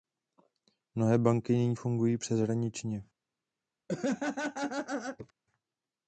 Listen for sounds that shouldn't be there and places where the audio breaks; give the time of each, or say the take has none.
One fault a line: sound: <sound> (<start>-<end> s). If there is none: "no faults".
sound: laugh (3.9-5.3 s)